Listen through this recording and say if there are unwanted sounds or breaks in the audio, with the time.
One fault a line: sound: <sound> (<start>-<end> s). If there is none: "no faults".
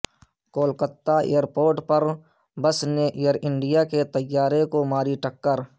no faults